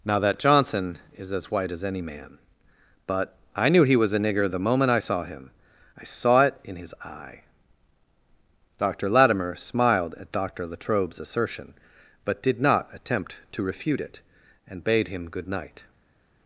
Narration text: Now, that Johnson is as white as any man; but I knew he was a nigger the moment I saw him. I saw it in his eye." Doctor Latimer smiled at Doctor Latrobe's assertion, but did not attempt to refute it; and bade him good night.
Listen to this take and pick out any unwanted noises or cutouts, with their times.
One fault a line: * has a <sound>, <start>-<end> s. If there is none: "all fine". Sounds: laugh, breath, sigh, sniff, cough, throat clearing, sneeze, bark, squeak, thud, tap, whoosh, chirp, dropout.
all fine